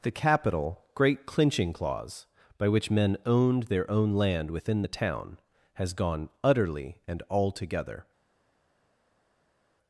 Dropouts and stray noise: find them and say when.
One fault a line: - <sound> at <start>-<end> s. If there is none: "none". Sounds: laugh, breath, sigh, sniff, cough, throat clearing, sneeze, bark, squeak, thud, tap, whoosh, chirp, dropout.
none